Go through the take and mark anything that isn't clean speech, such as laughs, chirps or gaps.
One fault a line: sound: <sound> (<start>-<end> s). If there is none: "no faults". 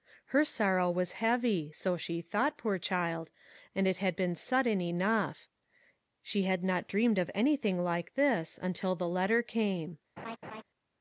sound: laugh (10.2-10.6 s)